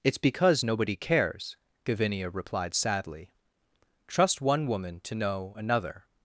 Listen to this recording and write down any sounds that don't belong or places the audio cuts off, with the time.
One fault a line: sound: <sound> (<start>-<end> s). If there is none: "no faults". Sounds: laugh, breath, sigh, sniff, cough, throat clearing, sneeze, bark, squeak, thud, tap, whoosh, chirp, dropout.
no faults